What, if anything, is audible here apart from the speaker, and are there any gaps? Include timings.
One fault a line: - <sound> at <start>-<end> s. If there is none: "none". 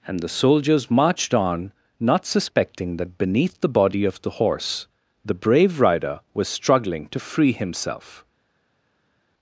none